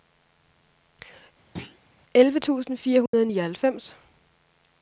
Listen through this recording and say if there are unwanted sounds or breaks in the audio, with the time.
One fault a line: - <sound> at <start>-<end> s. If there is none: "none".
- thud at 1.6-1.8 s
- dropout at 3.1-3.1 s